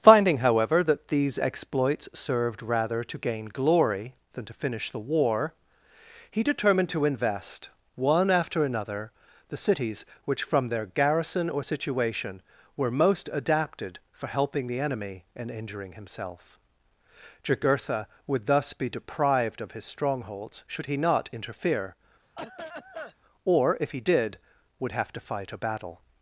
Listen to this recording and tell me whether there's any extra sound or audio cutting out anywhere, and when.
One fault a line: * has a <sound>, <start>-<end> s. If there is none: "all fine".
* has a cough, 22.2-23.2 s